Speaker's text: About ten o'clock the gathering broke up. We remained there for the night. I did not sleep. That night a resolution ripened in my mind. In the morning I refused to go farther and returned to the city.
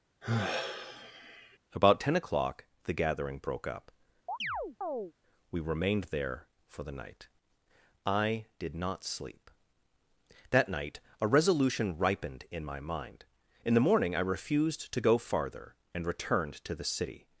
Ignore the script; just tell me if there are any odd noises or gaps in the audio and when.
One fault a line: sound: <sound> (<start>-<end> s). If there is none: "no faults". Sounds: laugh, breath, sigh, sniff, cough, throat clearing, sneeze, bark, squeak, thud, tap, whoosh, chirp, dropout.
sound: sigh (0.2-1.6 s)
sound: chirp (4.3-5.1 s)